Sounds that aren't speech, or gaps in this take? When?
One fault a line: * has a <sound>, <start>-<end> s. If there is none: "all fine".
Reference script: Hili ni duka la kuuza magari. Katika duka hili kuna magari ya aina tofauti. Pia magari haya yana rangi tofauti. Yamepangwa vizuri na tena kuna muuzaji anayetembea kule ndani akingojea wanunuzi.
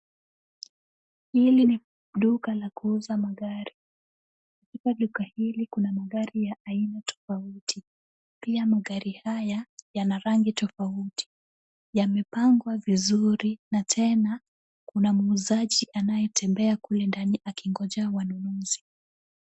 all fine